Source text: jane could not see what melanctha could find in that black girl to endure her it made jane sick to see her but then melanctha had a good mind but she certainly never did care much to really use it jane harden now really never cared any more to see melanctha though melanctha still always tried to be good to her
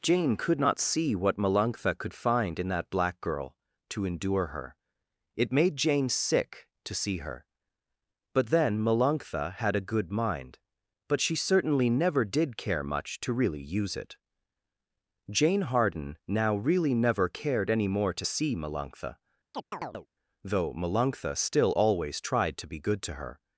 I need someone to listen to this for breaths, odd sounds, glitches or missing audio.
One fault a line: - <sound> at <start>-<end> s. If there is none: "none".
- chirp at 19.5-20.1 s